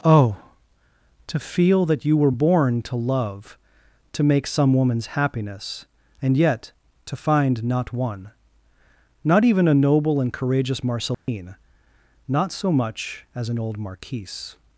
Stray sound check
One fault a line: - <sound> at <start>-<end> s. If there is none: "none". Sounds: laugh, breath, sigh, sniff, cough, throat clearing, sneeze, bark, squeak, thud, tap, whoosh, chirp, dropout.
- dropout at 11.1-11.3 s